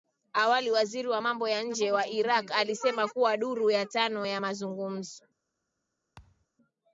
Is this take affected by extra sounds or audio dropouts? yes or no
yes